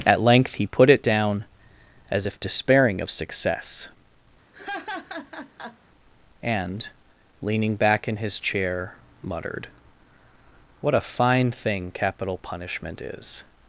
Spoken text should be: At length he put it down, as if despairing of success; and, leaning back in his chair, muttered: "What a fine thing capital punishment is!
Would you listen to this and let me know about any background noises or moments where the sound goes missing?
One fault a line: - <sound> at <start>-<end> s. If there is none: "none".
- laugh at 4.5-5.8 s